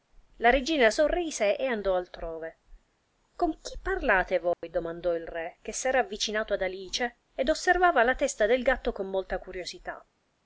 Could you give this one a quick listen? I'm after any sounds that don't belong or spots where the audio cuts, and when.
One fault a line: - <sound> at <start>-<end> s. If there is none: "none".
- dropout at 4.5-4.6 s